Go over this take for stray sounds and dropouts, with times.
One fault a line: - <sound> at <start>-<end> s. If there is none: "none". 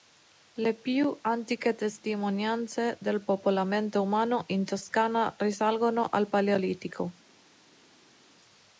none